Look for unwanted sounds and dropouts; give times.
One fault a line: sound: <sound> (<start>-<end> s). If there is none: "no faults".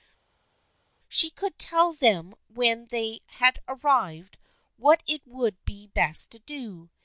no faults